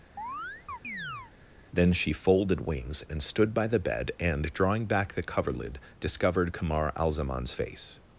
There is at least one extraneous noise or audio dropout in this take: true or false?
true